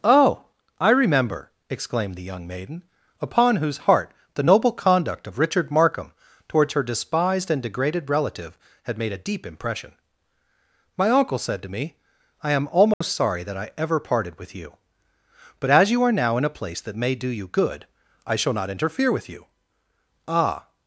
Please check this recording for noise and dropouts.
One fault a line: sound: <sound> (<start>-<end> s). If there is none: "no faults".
sound: dropout (12.9-13.0 s)